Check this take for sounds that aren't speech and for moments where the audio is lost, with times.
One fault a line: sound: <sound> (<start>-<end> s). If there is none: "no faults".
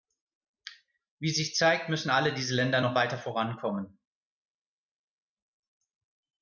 no faults